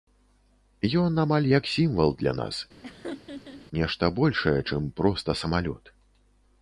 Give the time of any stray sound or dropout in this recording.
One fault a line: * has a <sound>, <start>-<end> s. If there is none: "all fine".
* has a laugh, 2.8-3.7 s